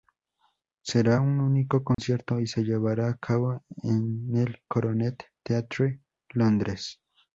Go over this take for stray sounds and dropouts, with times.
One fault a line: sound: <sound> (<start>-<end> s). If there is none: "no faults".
sound: dropout (1.9-2.0 s)